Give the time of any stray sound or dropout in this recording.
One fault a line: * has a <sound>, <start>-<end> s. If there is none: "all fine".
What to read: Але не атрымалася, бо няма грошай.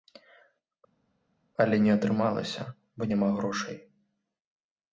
all fine